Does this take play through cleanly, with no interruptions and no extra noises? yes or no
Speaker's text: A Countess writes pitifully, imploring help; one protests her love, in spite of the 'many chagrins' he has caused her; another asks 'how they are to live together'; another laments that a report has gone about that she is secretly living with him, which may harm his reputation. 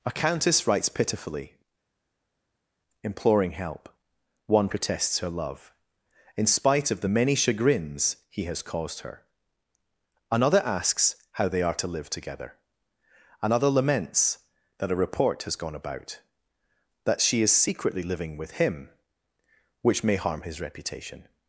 yes